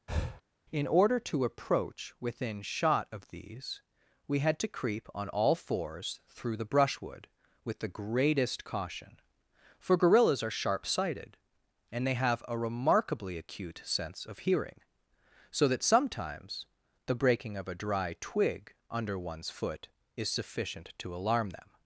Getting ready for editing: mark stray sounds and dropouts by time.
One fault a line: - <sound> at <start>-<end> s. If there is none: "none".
- breath at 0.1-0.4 s